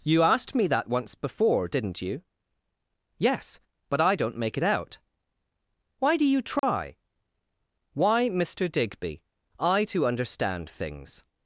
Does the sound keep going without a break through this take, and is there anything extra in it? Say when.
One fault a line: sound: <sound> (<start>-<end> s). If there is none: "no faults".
sound: dropout (6.6-6.6 s)